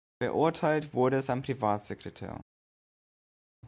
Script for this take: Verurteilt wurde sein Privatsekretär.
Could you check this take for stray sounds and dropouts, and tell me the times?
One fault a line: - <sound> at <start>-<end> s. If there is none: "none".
none